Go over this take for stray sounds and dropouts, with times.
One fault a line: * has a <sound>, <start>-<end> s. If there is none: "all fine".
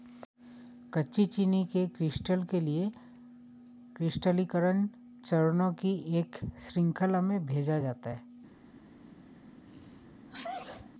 * has a sneeze, 9.7-10.9 s